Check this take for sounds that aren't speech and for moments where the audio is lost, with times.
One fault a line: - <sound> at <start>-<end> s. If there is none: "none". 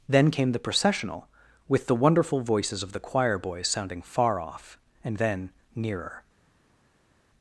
none